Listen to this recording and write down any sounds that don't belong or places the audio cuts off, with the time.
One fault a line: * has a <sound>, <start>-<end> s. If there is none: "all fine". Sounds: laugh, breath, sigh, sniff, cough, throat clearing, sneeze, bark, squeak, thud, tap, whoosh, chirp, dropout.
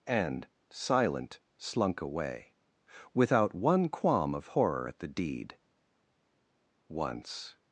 all fine